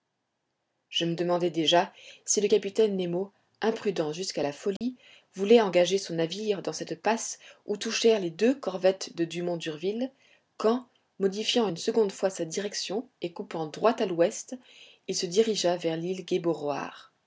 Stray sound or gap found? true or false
true